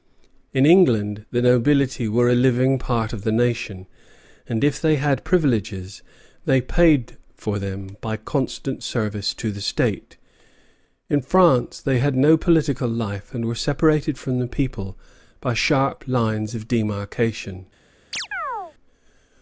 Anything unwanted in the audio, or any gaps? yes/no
yes